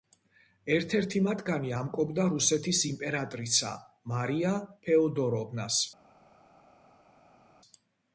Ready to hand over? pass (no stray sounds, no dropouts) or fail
pass